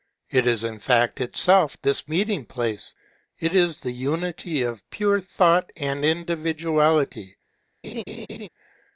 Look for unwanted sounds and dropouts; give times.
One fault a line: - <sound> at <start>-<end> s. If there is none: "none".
- laugh at 7.8-8.5 s